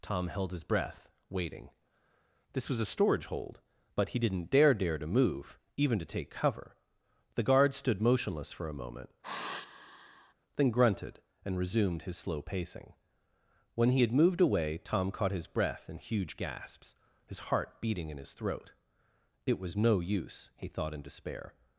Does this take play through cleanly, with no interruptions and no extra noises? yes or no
no